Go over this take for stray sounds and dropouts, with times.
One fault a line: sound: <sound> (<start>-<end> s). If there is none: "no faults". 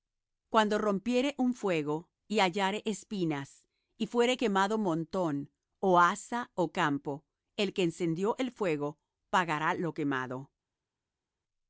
no faults